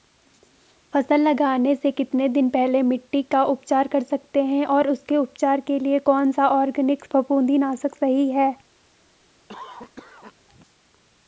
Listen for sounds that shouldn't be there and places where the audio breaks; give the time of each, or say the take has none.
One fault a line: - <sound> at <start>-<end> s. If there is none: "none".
- cough at 9.5-10.3 s